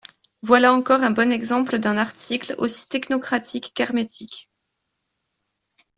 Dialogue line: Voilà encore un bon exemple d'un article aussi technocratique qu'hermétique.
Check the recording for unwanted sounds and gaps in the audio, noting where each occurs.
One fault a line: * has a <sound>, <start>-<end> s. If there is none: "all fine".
all fine